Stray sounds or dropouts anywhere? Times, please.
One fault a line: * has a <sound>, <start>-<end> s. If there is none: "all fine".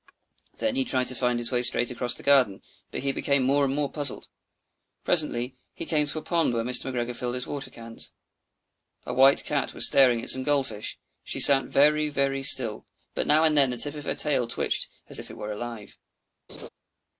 * has a laugh, 16.5-16.7 s